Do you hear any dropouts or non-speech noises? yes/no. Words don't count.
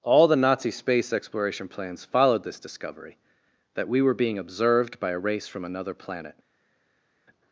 no